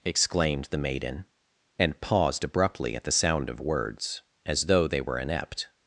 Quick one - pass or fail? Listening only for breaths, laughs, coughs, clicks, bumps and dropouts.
pass